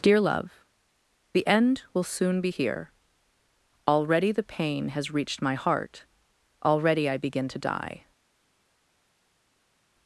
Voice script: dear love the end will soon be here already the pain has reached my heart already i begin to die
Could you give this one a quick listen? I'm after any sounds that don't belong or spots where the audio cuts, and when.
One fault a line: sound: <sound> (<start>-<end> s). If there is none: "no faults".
no faults